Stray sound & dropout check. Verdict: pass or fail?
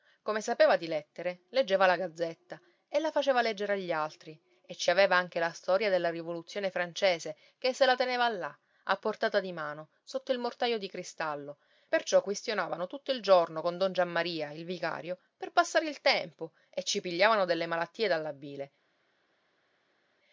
pass